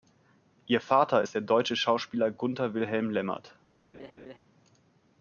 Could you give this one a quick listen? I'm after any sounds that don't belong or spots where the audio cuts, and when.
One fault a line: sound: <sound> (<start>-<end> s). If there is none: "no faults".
sound: laugh (3.9-4.4 s)